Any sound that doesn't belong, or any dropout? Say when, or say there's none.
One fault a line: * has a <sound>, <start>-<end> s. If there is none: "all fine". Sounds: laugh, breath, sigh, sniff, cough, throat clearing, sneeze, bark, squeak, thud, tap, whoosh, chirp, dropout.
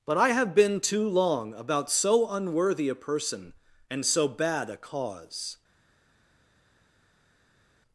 all fine